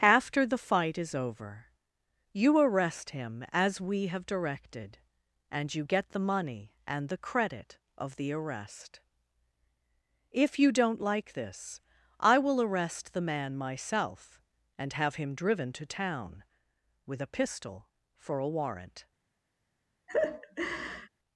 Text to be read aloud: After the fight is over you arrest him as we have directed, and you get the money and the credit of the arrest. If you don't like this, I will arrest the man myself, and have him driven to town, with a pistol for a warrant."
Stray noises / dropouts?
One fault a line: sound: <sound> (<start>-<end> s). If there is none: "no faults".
sound: laugh (20.1-21.1 s)